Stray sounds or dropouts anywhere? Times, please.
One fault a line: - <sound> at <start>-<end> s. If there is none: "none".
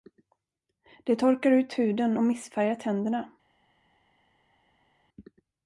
none